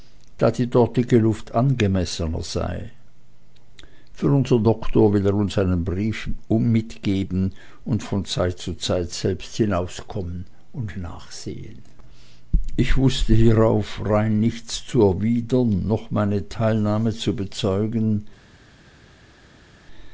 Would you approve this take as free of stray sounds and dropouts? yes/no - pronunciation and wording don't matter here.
yes